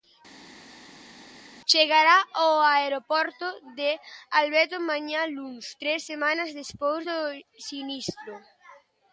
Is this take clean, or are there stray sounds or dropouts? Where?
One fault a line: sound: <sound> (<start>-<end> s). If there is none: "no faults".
no faults